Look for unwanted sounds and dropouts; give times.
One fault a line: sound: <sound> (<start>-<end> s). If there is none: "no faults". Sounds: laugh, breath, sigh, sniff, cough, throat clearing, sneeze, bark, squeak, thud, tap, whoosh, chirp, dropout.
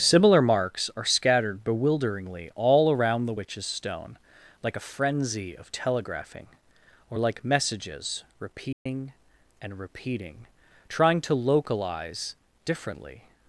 sound: dropout (8.7-8.9 s)